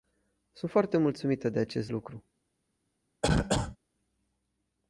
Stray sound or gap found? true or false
true